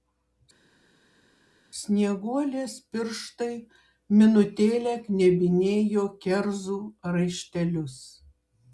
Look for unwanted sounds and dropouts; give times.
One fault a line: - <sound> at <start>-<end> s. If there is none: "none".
none